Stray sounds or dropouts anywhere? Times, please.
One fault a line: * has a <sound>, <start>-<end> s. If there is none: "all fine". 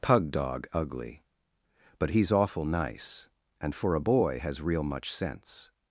all fine